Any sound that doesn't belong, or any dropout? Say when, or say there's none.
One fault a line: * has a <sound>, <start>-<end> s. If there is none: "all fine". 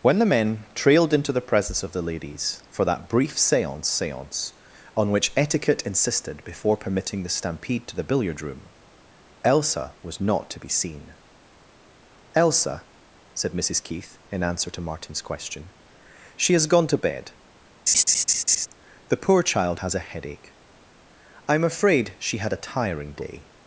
* has a laugh, 17.9-18.7 s